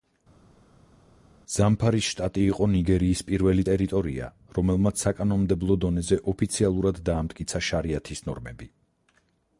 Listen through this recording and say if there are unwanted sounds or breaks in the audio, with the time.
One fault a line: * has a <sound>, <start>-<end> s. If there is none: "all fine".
all fine